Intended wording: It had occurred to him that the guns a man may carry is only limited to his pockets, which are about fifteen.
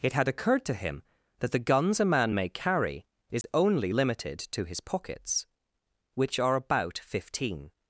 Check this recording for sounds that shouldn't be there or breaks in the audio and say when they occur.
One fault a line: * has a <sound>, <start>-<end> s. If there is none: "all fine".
* has a dropout, 3.4-3.4 s